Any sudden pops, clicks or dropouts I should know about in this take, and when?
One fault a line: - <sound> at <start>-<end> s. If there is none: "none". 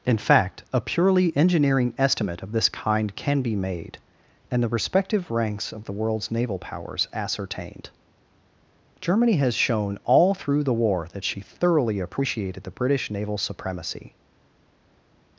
none